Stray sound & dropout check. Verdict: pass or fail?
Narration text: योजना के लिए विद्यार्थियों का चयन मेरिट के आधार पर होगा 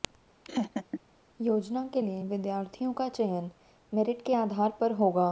fail